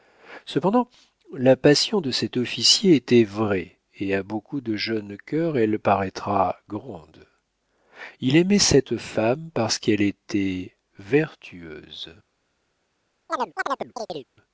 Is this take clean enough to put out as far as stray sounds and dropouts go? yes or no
no